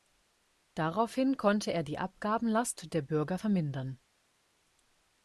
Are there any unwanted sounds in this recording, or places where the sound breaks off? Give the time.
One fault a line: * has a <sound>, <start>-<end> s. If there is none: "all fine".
all fine